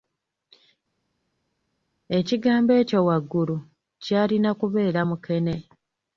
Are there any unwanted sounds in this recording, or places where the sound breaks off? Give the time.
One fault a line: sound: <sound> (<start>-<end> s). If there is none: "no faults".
no faults